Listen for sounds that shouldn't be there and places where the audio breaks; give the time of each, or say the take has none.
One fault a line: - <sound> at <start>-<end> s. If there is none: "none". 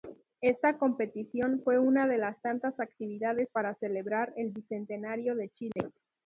- dropout at 5.7-5.8 s